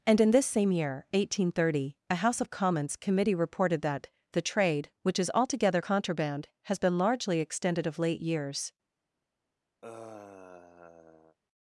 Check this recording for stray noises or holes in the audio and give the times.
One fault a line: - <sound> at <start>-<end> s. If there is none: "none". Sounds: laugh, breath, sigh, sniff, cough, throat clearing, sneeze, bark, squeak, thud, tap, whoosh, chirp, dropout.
- sigh at 9.8-11.4 s